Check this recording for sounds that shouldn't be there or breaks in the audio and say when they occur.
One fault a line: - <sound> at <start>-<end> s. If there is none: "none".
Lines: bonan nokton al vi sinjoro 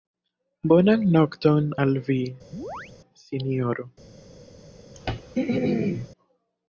- chirp at 2.5-2.9 s
- throat clearing at 4.9-6.1 s